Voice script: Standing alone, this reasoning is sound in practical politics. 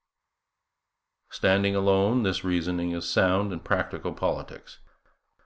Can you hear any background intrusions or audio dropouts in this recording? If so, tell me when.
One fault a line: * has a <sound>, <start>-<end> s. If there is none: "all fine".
all fine